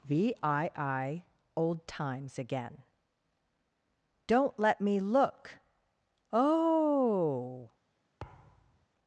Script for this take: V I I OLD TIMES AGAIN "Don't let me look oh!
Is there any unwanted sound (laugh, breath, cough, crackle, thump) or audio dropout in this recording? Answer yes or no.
yes